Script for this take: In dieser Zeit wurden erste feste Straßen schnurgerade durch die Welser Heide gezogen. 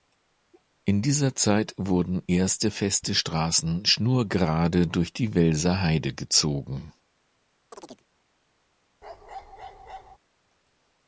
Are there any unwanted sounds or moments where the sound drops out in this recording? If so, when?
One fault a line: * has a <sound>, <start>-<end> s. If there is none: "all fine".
* has a chirp, 7.7-8.0 s
* has a bark, 9.0-10.2 s